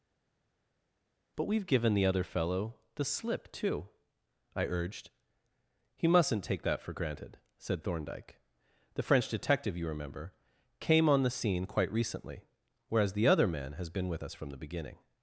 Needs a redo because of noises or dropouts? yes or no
no